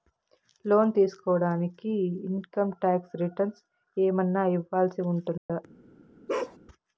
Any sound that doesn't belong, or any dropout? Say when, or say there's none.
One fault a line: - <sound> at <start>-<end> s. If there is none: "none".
- dropout at 5.4-5.5 s
- bark at 6.3-6.6 s